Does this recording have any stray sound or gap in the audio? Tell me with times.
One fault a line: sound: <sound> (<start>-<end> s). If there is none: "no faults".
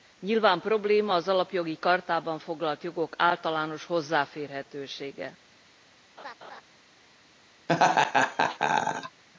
sound: laugh (6.2-6.6 s)
sound: laugh (7.7-9.2 s)